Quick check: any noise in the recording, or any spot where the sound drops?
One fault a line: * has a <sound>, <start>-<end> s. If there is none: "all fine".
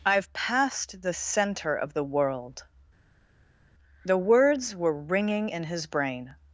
all fine